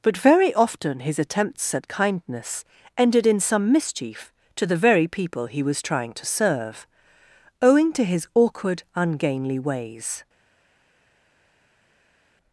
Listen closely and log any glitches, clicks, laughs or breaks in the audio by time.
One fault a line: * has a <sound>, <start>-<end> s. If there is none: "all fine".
all fine